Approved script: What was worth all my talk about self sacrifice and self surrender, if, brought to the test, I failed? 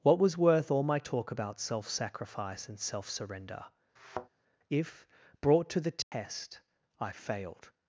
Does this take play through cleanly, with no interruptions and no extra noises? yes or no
no